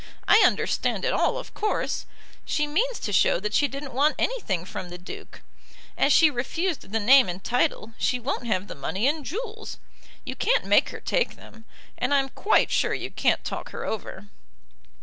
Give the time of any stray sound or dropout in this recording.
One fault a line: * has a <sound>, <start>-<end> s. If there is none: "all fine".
all fine